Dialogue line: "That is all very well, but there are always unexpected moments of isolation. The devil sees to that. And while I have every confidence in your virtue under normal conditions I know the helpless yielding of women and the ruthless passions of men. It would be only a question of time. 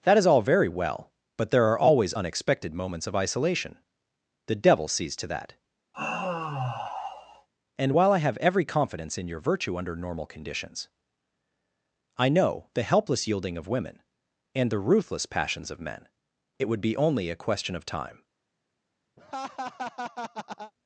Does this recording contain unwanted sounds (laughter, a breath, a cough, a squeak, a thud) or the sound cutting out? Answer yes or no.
yes